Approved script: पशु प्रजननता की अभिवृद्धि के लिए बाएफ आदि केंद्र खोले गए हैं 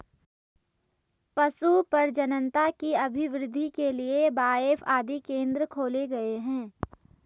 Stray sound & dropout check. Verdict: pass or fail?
pass